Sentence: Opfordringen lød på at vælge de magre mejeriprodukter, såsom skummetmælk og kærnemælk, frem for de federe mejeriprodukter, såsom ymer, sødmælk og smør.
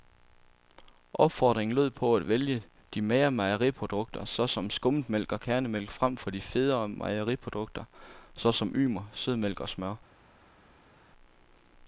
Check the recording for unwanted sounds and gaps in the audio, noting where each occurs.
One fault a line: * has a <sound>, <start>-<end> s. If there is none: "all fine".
all fine